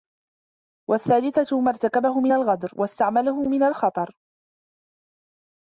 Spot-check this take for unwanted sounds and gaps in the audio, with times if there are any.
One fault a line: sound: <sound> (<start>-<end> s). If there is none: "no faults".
no faults